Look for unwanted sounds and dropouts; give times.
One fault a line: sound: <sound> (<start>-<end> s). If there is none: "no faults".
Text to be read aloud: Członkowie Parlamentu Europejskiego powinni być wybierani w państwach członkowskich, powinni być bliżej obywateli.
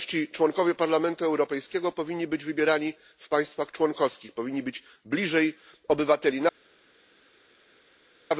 no faults